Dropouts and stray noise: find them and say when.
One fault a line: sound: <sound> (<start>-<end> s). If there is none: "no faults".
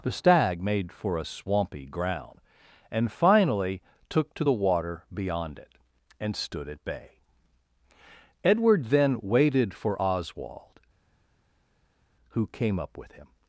no faults